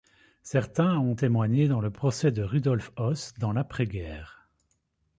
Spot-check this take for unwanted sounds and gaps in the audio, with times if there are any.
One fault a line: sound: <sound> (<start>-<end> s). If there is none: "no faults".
no faults